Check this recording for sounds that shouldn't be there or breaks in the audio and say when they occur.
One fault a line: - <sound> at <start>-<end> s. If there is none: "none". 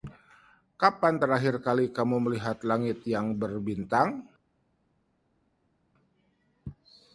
none